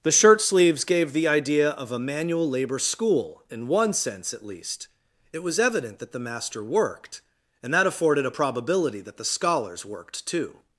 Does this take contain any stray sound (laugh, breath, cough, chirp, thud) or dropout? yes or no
no